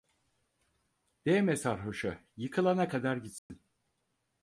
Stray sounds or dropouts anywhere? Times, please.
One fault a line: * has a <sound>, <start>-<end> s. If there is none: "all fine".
* has a dropout, 3.4-3.5 s